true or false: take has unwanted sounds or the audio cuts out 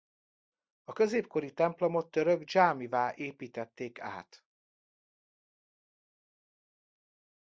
false